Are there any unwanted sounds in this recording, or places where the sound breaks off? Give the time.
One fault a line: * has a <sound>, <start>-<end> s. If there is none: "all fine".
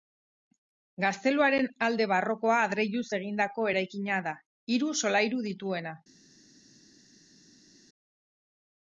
all fine